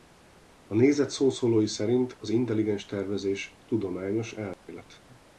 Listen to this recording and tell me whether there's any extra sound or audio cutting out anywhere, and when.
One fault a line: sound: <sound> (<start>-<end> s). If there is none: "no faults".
sound: dropout (4.5-4.7 s)